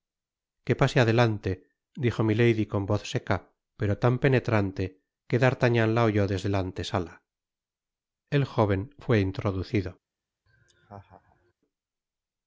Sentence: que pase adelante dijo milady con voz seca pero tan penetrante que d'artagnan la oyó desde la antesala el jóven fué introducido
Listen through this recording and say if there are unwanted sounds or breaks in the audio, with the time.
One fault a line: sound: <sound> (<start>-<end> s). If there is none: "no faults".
sound: laugh (10.5-11.5 s)